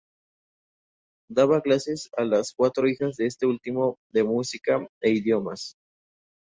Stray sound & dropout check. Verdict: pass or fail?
pass